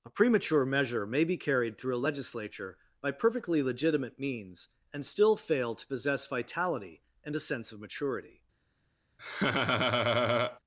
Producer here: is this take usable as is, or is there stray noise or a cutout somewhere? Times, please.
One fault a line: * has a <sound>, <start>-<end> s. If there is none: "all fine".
* has a laugh, 9.2-10.6 s